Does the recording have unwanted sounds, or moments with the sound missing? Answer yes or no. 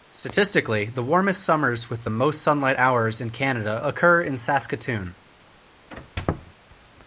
yes